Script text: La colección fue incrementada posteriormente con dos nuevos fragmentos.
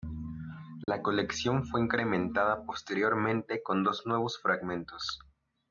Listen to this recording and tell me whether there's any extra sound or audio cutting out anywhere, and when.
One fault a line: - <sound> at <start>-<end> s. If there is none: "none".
- dropout at 0.8-0.9 s